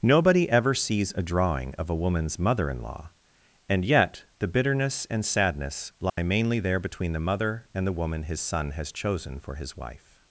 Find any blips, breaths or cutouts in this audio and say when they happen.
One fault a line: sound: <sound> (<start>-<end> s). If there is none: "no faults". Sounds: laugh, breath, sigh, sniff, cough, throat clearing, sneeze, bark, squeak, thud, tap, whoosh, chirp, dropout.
sound: dropout (6.1-6.2 s)